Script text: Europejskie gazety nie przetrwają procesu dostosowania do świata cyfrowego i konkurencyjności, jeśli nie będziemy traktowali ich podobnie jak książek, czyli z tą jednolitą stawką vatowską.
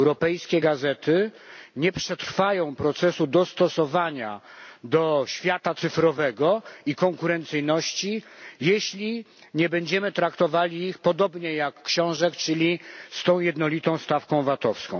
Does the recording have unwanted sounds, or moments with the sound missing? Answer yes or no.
no